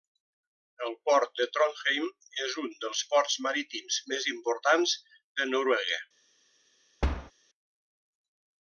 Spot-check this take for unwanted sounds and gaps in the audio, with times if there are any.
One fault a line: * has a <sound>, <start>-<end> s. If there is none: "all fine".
* has a thud, 7.0-7.3 s